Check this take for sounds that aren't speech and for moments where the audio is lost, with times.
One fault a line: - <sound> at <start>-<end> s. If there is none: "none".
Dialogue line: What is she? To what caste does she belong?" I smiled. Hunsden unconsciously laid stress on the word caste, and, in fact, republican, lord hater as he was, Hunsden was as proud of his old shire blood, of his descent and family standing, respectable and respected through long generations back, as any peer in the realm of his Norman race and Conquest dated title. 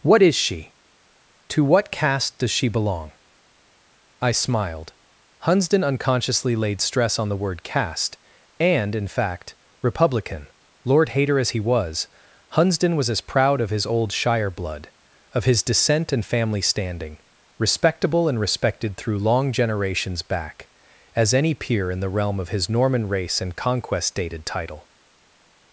none